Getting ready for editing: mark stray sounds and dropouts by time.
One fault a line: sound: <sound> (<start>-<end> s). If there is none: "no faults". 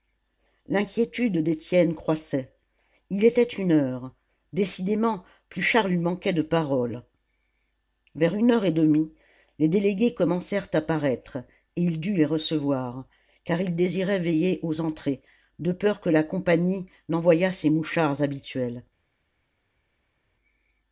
no faults